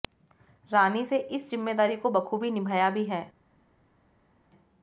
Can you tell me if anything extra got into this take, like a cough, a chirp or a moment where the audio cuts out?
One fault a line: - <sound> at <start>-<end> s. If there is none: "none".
none